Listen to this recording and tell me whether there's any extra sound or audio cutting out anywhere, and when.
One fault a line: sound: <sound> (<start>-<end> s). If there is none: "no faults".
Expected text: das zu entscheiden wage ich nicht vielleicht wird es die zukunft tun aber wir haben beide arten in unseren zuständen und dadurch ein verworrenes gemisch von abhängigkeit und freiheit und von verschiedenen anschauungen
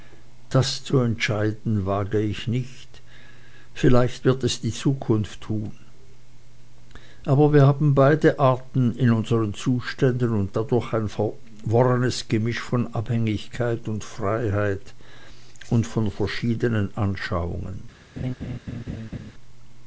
sound: laugh (18.2-19.3 s)